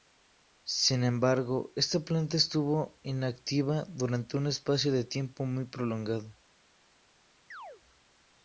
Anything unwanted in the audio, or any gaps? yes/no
yes